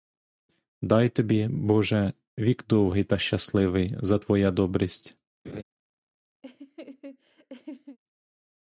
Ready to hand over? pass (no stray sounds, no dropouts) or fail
fail